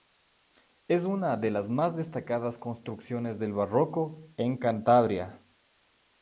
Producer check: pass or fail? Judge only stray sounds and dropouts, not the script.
pass